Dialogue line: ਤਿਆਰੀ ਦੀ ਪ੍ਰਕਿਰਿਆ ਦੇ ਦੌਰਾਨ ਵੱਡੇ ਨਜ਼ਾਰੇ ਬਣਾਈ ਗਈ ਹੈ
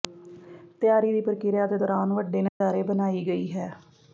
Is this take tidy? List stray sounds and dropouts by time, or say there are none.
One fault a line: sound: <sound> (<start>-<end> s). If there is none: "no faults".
sound: dropout (2.5-2.6 s)